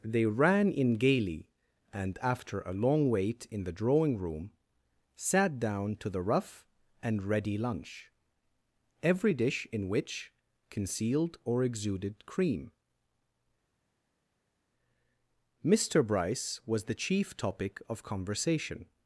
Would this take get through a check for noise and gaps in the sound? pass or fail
pass